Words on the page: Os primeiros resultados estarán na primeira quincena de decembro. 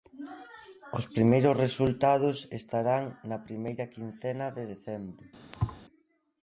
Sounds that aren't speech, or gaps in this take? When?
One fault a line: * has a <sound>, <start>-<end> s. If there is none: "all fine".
* has a thud, 5.5-5.8 s